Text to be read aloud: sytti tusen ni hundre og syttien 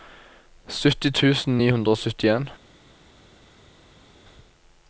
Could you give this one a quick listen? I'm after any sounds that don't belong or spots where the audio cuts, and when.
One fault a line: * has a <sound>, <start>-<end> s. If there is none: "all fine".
all fine